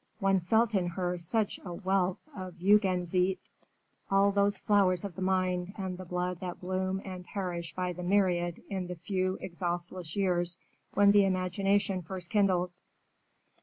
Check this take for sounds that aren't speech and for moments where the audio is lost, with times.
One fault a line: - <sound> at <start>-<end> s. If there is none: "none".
none